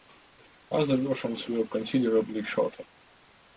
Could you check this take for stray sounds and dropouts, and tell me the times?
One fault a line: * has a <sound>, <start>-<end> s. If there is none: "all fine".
all fine